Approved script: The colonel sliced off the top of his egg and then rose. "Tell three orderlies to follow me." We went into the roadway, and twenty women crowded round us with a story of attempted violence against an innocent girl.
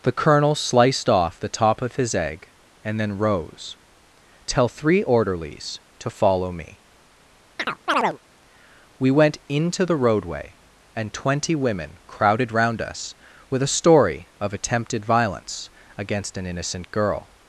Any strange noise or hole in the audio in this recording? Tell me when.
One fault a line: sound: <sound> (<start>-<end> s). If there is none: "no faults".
sound: chirp (7.6-8.2 s)